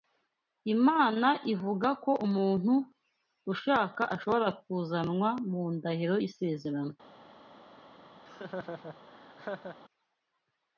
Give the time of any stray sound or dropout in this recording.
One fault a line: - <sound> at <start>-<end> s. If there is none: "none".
- laugh at 8.2-9.8 s